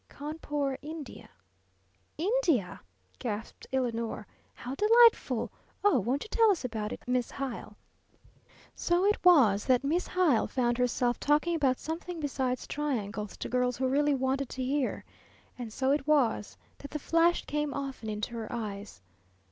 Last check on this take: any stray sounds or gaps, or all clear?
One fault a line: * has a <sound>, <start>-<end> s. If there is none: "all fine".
all fine